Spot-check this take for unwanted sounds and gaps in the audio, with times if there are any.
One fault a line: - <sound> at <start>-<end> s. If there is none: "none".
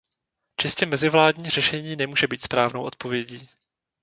none